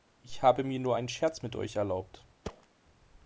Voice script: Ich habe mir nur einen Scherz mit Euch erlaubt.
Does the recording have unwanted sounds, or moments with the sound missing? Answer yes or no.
yes